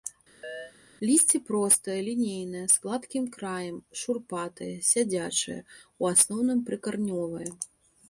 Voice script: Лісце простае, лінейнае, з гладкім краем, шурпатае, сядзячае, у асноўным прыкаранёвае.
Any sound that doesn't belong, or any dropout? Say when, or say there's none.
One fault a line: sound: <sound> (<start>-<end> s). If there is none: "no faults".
sound: chirp (0.4-0.7 s)